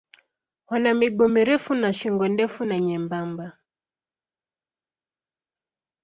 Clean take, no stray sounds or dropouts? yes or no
yes